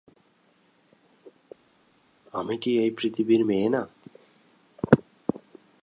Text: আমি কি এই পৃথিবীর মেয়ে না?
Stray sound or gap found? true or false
false